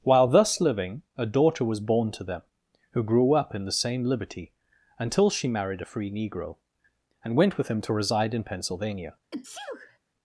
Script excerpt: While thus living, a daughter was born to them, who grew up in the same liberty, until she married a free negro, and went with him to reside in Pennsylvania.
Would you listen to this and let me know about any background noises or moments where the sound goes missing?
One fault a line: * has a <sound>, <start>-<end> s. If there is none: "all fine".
* has a sneeze, 9.3-10.0 s